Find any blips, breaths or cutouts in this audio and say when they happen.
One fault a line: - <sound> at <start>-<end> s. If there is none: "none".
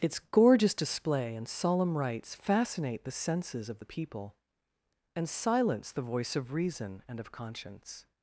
none